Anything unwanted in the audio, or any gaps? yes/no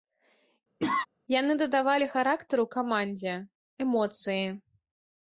yes